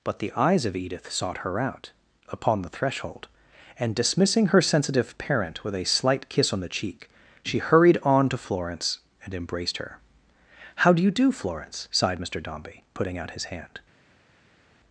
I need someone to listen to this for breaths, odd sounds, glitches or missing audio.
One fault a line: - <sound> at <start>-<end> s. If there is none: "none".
none